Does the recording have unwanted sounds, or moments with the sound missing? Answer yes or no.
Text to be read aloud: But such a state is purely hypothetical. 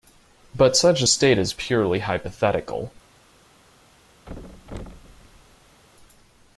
yes